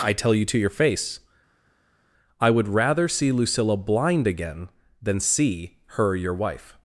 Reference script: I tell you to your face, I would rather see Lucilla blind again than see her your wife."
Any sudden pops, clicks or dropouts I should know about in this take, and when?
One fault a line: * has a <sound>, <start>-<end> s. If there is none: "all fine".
all fine